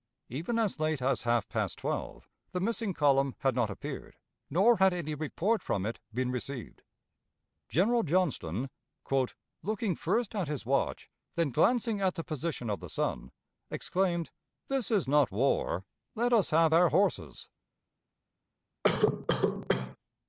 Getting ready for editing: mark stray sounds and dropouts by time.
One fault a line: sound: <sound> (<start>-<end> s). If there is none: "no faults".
sound: cough (18.8-20.0 s)